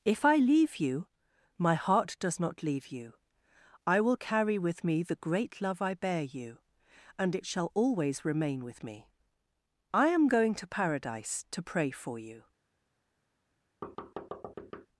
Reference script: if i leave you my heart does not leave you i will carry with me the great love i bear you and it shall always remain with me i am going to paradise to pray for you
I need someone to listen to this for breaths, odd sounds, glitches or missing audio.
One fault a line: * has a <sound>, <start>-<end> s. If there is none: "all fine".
* has a thud, 13.8-14.9 s